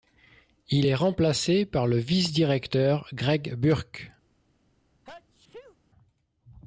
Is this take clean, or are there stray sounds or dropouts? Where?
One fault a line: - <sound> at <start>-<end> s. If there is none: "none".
- sneeze at 5.0-5.8 s